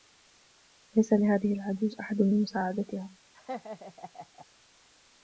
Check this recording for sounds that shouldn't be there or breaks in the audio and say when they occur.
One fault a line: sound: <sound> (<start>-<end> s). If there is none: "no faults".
sound: laugh (3.3-4.5 s)